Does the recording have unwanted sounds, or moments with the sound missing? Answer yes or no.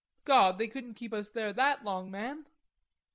no